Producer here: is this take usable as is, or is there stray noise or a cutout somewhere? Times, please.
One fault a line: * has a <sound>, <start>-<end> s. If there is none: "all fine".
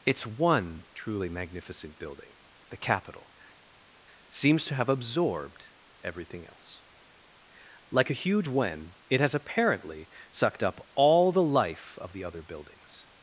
all fine